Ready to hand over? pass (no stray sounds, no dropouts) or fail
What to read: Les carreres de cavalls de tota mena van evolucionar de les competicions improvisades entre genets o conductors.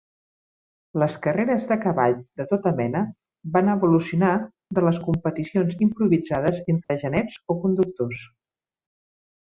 fail